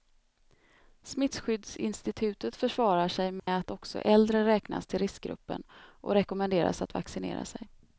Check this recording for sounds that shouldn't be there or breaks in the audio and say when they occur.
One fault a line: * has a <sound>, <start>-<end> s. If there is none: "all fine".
* has a dropout, 3.4-3.5 s